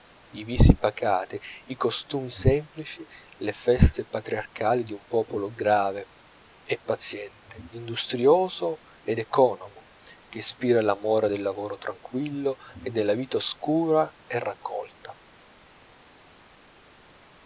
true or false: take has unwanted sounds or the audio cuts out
false